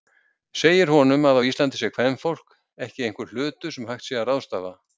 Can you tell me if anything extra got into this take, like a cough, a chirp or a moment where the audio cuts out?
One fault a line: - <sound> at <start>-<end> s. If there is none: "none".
none